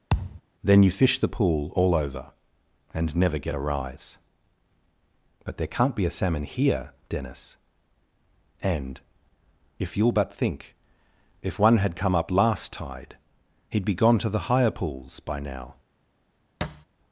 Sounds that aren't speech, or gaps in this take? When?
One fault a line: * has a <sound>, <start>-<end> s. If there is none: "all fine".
* has a thud, 0.1-0.4 s
* has a thud, 16.6-16.9 s